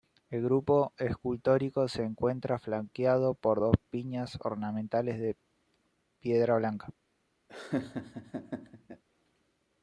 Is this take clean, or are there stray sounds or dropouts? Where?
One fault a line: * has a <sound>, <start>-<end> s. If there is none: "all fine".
* has a laugh, 7.5-9.0 s